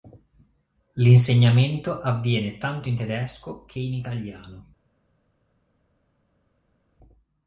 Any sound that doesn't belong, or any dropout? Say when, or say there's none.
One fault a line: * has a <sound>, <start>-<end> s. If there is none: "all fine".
all fine